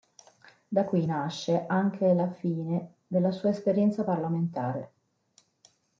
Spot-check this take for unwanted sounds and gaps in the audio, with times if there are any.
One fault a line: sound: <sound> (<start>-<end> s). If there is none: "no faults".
no faults